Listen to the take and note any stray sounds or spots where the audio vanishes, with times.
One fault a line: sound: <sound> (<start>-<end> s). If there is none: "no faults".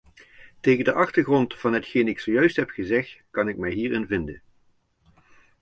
no faults